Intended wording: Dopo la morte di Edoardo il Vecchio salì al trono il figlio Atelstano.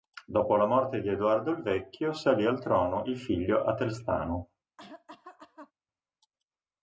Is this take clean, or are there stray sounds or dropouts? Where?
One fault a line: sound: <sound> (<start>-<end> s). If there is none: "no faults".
sound: cough (4.8-5.7 s)